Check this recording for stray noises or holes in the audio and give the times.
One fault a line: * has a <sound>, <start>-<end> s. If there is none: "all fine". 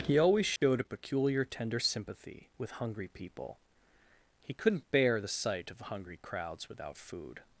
* has a dropout, 0.6-0.6 s